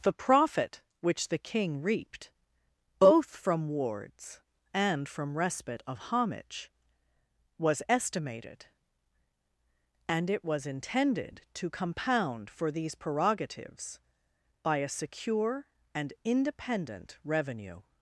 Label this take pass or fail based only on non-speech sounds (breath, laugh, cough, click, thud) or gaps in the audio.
pass